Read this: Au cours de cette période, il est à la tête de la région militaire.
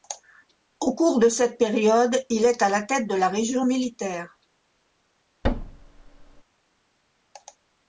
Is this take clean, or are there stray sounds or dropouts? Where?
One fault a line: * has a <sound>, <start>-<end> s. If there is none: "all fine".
* has a thud, 5.4-6.4 s